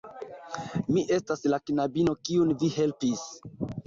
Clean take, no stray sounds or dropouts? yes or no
yes